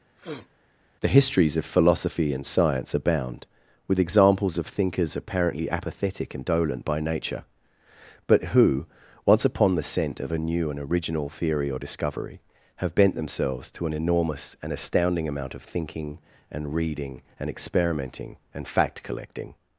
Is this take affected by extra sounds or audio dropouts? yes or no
yes